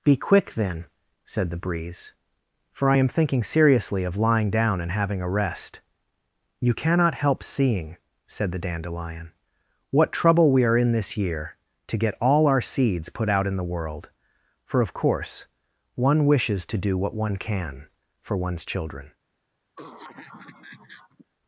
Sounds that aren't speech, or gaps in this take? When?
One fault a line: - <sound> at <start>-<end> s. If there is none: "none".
- cough at 19.8-21.3 s